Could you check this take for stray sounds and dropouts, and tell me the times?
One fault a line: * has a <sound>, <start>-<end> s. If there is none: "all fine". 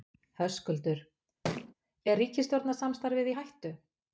* has a thud, 1.4-1.7 s